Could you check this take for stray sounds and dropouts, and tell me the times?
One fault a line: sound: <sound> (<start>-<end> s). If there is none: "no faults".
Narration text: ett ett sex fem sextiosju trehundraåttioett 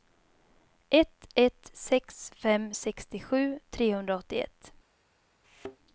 sound: thud (5.4-5.8 s)